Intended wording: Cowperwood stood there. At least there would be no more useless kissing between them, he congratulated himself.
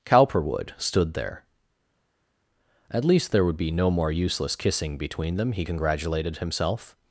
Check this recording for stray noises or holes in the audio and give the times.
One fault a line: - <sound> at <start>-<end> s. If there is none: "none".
none